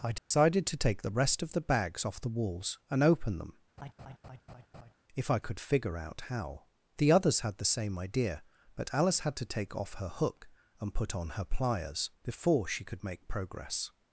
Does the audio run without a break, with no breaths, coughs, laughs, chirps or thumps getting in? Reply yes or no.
no